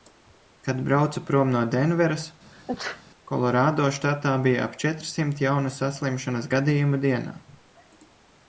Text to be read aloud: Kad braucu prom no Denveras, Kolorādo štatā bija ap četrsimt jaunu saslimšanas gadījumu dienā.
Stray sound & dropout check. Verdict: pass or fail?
fail